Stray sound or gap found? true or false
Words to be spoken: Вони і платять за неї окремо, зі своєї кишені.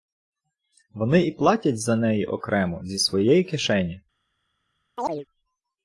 true